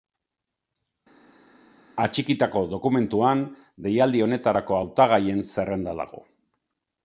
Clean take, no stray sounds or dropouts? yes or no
yes